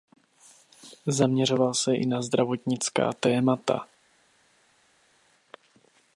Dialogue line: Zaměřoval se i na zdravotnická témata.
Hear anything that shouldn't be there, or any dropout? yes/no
no